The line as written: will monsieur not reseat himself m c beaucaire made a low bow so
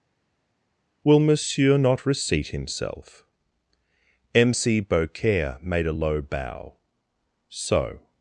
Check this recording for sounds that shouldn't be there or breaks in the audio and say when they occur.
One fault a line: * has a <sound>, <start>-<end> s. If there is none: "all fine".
all fine